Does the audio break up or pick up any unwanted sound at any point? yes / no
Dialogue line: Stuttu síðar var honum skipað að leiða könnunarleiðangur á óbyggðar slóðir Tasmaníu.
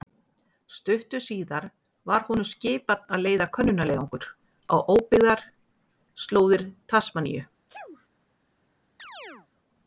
yes